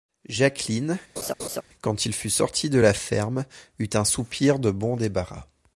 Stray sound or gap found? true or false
true